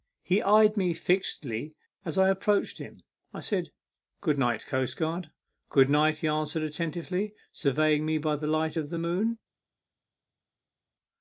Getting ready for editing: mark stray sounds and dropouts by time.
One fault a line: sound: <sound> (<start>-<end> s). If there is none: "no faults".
no faults